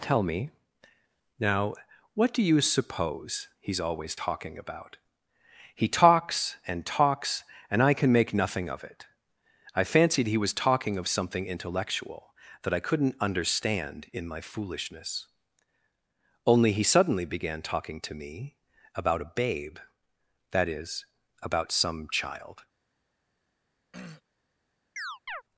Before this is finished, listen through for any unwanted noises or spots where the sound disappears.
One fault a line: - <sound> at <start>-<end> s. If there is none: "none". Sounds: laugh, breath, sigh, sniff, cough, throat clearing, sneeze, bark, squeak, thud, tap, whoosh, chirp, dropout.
- throat clearing at 23.9-24.2 s
- chirp at 25.0-25.4 s